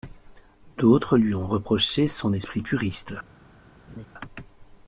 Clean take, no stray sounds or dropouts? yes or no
no